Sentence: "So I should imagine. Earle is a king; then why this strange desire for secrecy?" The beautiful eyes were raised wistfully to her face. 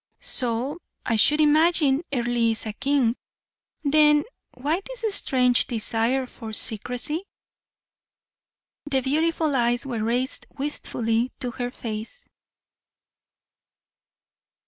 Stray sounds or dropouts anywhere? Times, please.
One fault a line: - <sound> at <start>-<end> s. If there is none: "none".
none